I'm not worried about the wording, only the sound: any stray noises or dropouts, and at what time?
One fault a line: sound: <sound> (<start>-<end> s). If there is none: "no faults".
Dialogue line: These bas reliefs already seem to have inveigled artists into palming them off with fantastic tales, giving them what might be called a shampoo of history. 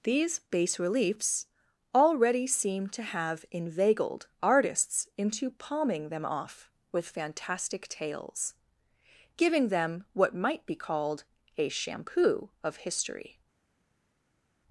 no faults